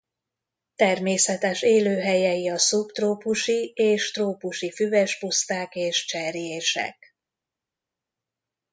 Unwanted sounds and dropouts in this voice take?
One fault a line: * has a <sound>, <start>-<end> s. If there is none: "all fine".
all fine